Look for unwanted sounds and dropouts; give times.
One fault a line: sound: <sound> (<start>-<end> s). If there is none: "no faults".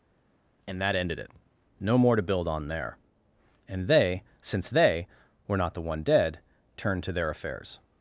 no faults